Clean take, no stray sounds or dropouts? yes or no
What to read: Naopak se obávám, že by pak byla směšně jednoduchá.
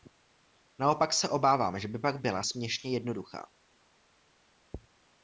yes